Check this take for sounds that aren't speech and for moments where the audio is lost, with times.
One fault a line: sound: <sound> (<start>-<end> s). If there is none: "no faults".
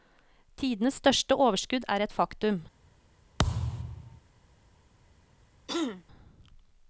sound: thud (3.4-4.2 s)
sound: throat clearing (5.7-6.0 s)